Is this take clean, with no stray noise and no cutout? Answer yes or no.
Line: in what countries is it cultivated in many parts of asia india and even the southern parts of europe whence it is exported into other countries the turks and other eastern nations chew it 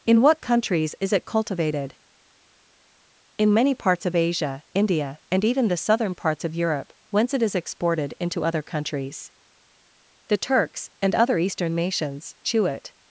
yes